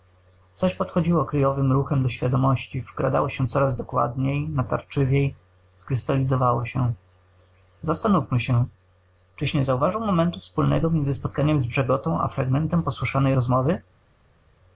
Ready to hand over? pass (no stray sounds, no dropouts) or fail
pass